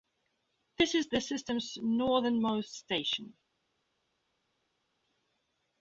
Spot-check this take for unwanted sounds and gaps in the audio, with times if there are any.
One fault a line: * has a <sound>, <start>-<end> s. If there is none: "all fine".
all fine